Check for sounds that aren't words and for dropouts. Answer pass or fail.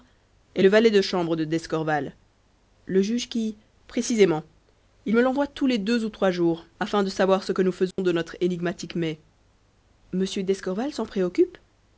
fail